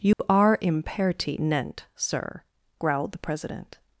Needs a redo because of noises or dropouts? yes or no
yes